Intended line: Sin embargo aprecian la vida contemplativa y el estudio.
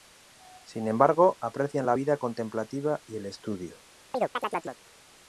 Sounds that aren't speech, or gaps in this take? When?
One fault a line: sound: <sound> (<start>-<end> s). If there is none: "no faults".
sound: chirp (4.1-4.8 s)